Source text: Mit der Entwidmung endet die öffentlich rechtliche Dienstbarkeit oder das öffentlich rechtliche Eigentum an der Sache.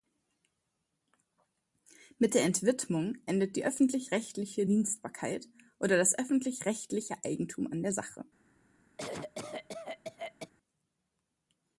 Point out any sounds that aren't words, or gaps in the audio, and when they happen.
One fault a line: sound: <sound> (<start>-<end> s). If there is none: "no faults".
sound: cough (9.0-10.5 s)